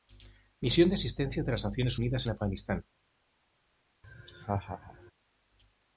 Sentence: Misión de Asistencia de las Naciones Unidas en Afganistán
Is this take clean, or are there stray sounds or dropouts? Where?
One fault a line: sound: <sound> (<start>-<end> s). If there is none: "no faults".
sound: laugh (4.0-5.1 s)